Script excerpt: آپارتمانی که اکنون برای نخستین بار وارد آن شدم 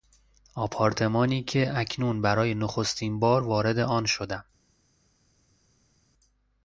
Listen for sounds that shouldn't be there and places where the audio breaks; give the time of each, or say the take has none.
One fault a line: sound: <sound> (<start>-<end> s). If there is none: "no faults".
no faults